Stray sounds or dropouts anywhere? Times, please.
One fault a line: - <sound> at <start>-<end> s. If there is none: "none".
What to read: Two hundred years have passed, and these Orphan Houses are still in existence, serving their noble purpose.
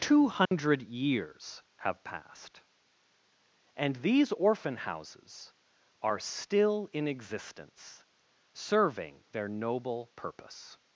- dropout at 0.5-0.5 s